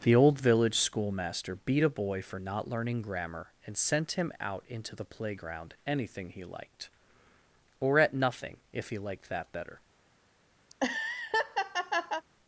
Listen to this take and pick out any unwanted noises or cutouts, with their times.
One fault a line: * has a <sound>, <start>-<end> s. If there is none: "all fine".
* has a laugh, 10.7-12.2 s